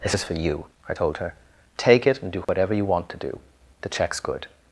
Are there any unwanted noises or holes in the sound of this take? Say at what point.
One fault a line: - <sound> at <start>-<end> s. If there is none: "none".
- dropout at 2.4-2.5 s